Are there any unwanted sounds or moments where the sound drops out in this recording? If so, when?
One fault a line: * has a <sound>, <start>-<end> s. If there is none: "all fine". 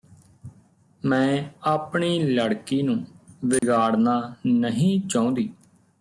* has a dropout, 3.6-3.6 s